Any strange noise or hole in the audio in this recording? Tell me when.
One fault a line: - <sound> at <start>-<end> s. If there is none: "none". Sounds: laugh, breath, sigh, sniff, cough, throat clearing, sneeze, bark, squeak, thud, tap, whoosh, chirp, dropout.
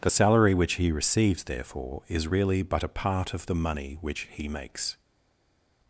none